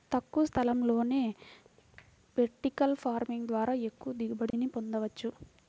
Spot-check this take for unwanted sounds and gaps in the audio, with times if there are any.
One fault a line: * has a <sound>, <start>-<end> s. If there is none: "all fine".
* has a dropout, 4.5-4.5 s